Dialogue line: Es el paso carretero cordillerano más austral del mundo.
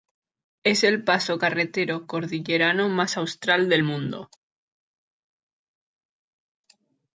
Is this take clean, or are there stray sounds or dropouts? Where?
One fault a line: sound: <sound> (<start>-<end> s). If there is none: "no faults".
no faults